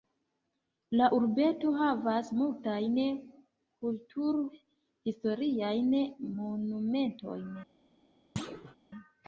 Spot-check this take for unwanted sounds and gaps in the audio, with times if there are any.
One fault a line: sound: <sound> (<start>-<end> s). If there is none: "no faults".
sound: thud (8.4-8.8 s)